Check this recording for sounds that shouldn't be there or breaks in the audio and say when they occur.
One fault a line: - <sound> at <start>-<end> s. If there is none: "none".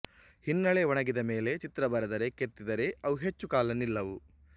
none